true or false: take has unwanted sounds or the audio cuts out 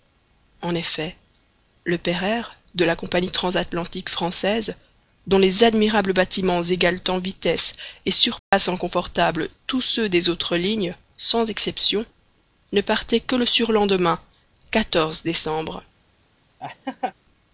true